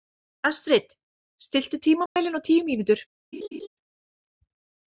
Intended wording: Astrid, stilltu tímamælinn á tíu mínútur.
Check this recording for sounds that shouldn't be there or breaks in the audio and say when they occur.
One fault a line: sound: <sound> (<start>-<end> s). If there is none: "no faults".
sound: dropout (2.1-2.2 s)
sound: laugh (3.3-3.7 s)